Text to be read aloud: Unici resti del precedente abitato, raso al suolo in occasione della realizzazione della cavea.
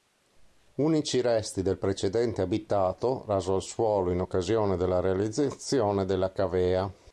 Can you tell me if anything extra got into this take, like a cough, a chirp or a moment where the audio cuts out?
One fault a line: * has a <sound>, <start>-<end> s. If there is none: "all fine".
all fine